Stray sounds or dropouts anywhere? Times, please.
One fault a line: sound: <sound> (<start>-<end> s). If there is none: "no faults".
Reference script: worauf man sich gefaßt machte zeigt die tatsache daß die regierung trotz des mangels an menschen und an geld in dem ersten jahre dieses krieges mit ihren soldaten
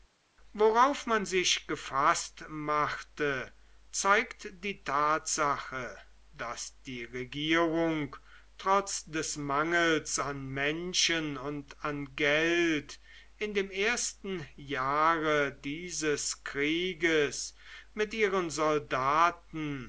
no faults